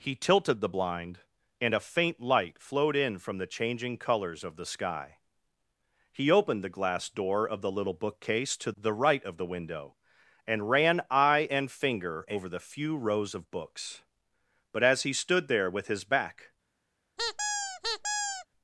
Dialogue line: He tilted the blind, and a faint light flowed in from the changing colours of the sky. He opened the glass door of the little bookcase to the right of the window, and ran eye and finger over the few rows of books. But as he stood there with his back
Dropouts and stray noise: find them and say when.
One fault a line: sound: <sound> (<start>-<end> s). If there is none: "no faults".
sound: squeak (17.2-18.5 s)